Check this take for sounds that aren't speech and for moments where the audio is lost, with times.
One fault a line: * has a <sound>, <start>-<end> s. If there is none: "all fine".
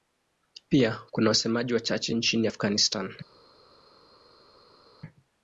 all fine